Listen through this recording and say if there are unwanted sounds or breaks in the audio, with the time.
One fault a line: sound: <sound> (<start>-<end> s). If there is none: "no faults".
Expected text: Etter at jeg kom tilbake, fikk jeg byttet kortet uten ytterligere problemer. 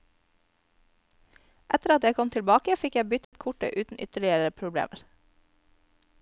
sound: dropout (3.2-3.3 s)